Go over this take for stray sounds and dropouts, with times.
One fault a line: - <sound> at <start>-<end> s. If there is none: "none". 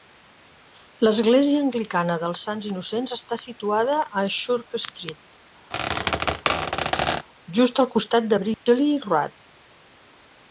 - squeak at 5.7-7.3 s
- dropout at 8.5-8.7 s